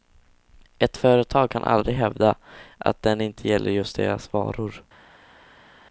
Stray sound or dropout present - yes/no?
no